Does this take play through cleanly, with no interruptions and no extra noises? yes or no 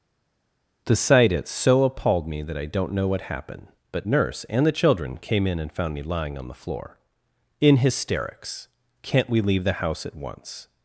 yes